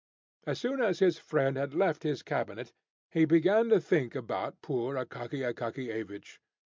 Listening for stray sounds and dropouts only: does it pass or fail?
pass